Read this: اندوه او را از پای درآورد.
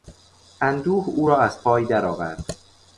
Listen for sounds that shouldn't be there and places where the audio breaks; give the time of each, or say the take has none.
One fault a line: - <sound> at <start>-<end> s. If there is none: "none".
none